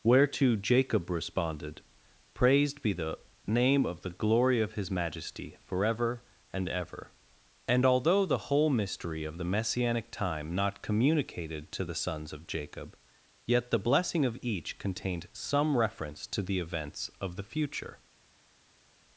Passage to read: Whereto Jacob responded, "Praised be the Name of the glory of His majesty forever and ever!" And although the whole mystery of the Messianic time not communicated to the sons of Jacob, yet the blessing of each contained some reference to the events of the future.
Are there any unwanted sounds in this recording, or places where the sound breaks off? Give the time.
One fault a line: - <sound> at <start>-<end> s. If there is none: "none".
none